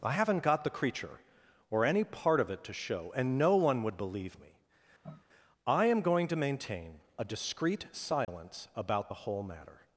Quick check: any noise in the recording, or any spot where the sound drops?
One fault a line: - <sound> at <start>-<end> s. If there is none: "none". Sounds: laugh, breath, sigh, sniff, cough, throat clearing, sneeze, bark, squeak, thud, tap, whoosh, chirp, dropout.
- sniff at 5.0-5.3 s
- dropout at 8.2-8.3 s